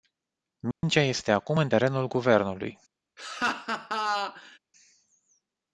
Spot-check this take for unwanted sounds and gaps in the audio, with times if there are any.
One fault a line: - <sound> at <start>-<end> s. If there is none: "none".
- dropout at 0.7-0.8 s
- laugh at 3.2-4.6 s